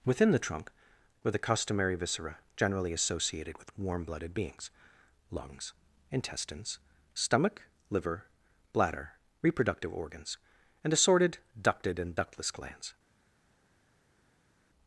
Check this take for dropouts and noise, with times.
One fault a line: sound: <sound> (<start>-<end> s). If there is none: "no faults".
no faults